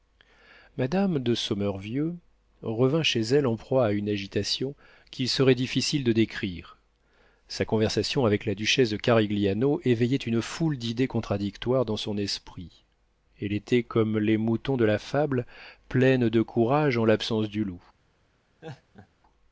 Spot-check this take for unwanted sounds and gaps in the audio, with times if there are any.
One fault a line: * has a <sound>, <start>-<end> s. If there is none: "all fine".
* has a laugh, 18.6-19.1 s